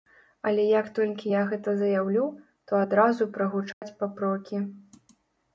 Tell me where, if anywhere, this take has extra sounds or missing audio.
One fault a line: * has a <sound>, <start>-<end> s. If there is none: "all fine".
* has a dropout, 3.7-3.8 s